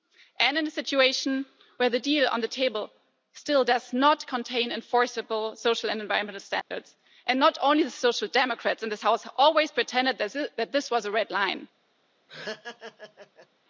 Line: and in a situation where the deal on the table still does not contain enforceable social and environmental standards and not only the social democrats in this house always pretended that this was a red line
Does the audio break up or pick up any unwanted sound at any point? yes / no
yes